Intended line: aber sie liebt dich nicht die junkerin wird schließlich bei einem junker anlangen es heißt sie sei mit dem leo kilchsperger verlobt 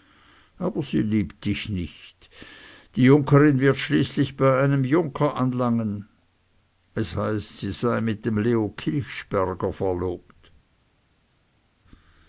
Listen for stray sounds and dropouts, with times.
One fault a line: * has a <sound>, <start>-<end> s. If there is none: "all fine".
all fine